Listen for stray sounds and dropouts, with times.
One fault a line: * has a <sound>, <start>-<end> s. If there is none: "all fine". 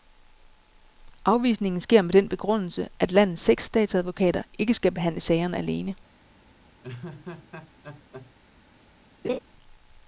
* has a laugh, 6.8-8.3 s
* has a laugh, 9.2-9.4 s